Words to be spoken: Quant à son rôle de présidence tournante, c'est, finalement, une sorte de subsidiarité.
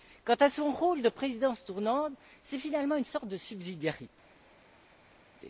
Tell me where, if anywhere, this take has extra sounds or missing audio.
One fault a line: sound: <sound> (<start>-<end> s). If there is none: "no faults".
no faults